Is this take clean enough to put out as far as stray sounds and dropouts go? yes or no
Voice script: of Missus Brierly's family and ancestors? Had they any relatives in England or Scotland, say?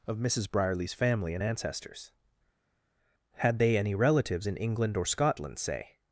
yes